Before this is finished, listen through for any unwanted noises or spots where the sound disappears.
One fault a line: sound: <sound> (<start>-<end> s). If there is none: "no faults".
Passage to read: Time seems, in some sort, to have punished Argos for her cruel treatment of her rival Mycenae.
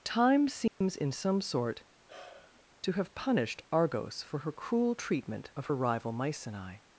sound: dropout (0.7-0.8 s)
sound: sigh (2.1-2.6 s)